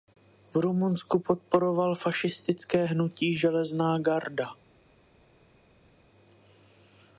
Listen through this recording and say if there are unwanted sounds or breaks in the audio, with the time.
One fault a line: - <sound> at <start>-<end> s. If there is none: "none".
none